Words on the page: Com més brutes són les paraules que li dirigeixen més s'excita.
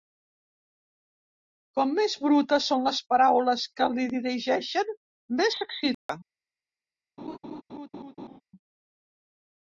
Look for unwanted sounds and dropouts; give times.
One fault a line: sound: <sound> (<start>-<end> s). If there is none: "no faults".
sound: dropout (5.9-6.1 s)
sound: laugh (7.2-8.4 s)